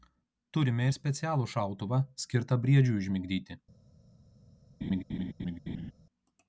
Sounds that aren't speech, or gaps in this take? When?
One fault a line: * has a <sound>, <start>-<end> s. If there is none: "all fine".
* has a laugh, 4.8-5.9 s